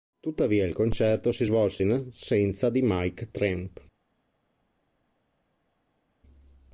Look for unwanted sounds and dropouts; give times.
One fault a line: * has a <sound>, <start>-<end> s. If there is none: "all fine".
all fine